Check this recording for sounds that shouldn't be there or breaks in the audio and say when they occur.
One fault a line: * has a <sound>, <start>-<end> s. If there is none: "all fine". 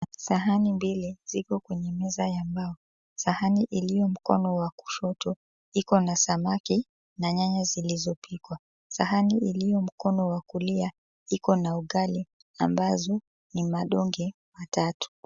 all fine